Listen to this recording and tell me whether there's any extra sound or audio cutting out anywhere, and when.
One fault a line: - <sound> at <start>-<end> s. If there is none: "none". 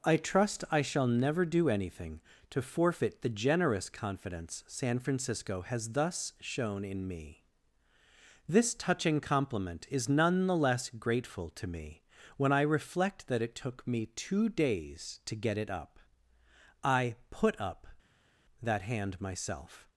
none